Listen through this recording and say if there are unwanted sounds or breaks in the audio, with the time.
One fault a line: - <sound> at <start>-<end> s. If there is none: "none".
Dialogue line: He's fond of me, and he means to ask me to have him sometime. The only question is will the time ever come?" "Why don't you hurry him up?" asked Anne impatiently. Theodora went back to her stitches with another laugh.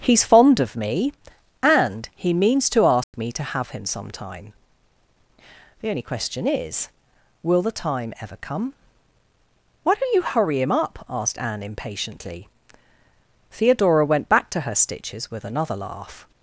- dropout at 3.0-3.1 s